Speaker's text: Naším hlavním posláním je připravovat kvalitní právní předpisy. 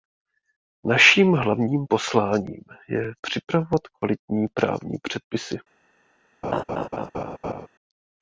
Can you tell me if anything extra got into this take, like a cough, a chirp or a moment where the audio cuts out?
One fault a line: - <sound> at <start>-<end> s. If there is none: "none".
- laugh at 6.4-7.7 s